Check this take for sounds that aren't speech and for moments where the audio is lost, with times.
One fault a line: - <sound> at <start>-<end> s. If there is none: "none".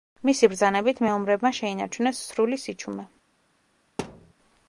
- thud at 4.0-4.3 s